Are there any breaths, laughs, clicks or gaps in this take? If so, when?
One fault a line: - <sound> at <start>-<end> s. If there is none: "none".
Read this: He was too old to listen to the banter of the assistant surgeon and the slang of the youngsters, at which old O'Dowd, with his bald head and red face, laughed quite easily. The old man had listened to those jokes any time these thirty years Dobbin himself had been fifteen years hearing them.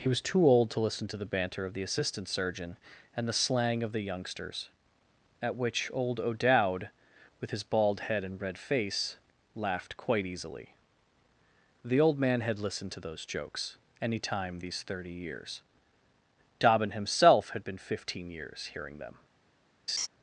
- laugh at 19.9-20.1 s